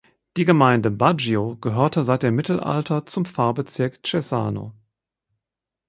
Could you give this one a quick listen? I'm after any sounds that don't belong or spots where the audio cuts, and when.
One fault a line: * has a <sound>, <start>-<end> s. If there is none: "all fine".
all fine